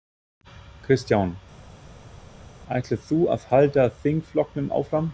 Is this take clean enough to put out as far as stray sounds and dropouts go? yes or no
yes